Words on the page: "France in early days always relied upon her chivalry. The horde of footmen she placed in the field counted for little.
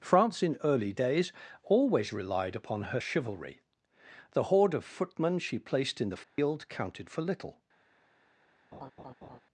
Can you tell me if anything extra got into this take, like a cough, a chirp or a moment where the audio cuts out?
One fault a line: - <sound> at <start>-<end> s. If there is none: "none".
- dropout at 6.2-6.4 s
- laugh at 8.7-9.4 s